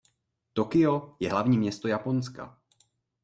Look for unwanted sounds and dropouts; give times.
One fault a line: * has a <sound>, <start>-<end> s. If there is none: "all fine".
all fine